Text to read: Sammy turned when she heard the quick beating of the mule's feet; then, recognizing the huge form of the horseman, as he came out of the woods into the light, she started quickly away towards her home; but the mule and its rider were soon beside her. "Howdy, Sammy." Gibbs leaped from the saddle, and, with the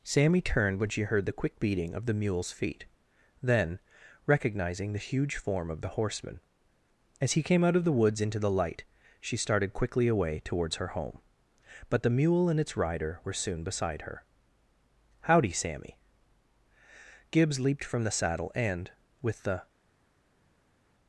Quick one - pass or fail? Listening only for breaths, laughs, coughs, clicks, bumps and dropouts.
pass